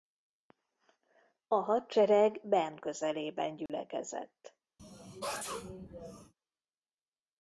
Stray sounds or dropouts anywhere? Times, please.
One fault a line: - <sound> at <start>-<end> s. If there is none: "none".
- dropout at 3.7-3.7 s
- sneeze at 4.8-6.3 s